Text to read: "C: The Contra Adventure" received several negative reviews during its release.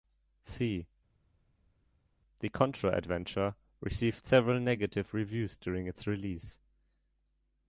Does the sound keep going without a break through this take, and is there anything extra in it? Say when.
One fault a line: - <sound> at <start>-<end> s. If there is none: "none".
none